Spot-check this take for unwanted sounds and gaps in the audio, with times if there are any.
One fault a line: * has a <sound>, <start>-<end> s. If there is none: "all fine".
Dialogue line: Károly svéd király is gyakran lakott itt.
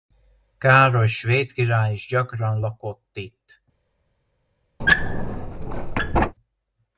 * has a squeak, 4.8-6.3 s